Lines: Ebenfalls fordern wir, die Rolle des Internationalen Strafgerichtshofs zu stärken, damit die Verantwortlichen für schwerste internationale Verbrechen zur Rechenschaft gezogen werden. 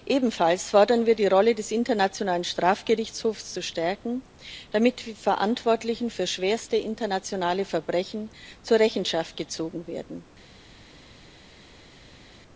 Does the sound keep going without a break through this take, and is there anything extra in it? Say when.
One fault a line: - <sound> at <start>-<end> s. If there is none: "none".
none